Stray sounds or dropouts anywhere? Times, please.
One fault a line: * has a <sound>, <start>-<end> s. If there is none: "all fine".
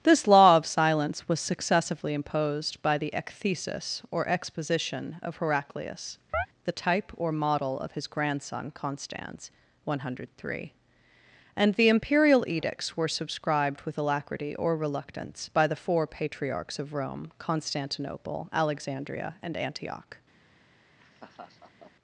* has a chirp, 6.3-6.5 s
* has a laugh, 21.0-21.9 s